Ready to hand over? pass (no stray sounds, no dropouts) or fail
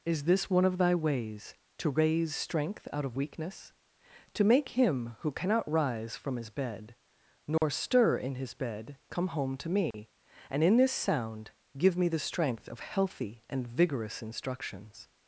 fail